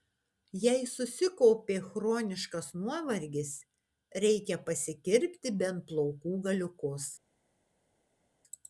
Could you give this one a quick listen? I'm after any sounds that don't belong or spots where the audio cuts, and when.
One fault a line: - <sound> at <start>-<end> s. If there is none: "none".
none